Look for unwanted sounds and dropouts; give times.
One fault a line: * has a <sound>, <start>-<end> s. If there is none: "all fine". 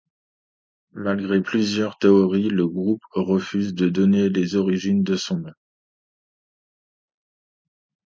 all fine